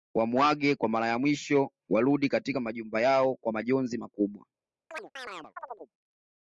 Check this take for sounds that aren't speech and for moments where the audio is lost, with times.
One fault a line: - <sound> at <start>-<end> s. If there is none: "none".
- chirp at 4.9-5.9 s